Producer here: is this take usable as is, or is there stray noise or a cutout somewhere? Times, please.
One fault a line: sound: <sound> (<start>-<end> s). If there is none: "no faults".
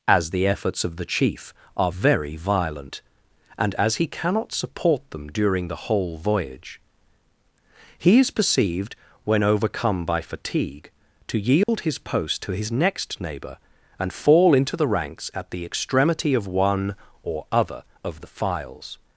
sound: dropout (11.6-11.7 s)